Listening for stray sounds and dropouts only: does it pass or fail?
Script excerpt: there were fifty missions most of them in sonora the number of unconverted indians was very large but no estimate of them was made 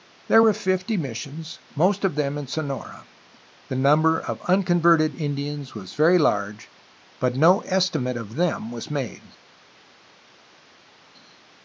pass